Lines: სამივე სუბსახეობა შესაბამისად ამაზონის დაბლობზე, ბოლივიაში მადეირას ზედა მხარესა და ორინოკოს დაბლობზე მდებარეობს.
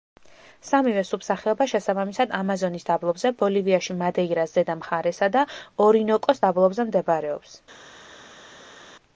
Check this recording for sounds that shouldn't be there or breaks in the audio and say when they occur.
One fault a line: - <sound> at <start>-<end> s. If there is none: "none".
none